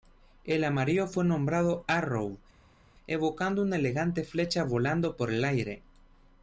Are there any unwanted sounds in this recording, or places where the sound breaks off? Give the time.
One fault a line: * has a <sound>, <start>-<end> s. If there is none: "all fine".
all fine